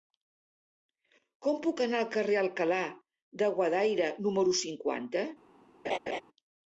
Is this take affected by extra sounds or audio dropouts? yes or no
yes